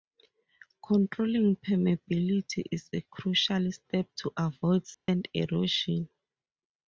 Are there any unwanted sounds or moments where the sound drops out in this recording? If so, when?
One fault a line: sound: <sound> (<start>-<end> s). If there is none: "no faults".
sound: dropout (4.9-5.1 s)